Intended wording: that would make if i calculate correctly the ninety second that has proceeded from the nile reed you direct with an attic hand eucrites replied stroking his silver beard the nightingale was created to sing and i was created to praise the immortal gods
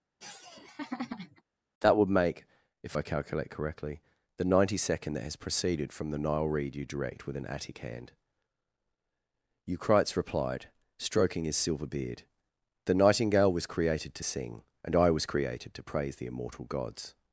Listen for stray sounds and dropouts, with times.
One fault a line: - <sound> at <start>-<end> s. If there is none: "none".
- laugh at 0.2-1.4 s